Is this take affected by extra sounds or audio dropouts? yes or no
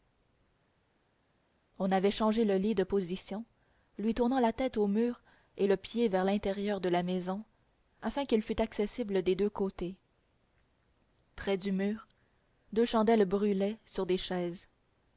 no